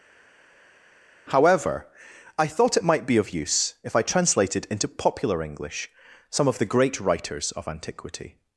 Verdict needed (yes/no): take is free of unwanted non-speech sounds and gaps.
yes